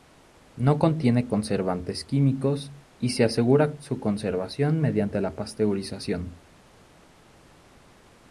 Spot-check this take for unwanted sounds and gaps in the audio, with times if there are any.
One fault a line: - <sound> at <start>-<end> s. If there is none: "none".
none